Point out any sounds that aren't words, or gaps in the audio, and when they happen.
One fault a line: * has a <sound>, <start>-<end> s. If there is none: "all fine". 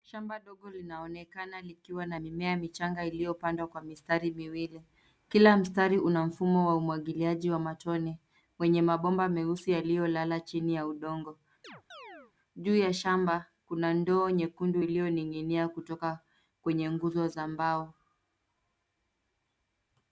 * has a chirp, 11.6-12.3 s